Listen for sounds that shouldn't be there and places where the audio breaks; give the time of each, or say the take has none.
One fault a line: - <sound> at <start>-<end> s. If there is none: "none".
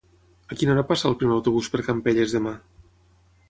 none